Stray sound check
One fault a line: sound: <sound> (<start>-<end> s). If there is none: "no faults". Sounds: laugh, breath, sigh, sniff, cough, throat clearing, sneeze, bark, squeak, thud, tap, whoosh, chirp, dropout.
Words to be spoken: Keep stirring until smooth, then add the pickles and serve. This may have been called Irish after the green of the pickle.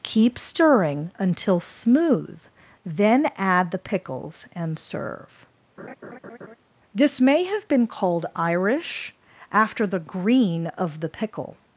sound: laugh (5.8-6.6 s)